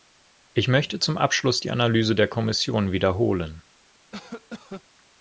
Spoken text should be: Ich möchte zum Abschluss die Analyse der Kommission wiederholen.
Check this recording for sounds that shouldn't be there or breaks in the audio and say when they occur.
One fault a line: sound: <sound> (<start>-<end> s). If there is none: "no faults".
sound: cough (4.1-4.8 s)